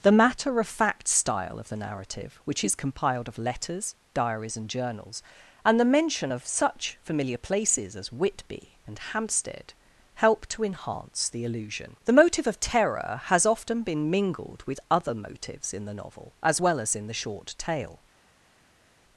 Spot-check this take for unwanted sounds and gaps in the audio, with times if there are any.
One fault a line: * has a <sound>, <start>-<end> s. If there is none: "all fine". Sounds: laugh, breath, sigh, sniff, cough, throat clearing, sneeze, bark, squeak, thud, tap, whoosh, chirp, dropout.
all fine